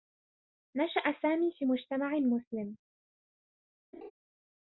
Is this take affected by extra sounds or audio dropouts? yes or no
yes